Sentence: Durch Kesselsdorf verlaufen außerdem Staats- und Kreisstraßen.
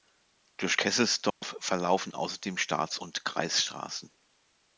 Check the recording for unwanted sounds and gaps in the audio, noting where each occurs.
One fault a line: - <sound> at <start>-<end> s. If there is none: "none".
- dropout at 1.3-1.4 s